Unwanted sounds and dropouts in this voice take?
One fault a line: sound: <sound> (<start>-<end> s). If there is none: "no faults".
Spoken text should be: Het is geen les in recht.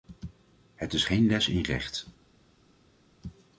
no faults